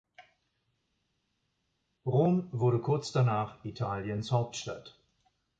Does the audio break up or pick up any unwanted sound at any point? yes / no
no